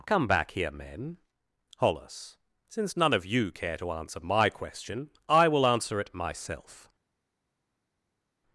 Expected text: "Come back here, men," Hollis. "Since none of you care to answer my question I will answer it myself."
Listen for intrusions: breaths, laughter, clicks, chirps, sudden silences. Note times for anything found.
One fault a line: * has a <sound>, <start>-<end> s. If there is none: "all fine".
all fine